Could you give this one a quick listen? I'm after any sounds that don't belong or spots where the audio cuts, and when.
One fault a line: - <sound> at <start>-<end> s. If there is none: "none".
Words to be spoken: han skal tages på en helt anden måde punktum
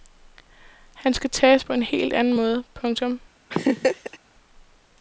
- laugh at 3.5-4.2 s